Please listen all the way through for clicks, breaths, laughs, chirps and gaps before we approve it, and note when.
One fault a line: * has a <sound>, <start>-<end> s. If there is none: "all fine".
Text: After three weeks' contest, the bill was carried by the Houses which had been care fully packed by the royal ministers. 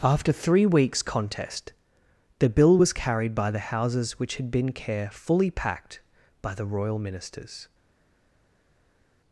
all fine